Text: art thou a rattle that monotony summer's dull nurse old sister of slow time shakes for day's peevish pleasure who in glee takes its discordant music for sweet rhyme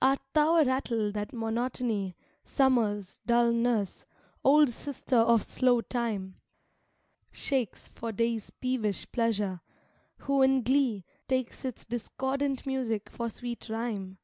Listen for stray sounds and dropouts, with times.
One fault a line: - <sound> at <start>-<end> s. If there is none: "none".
none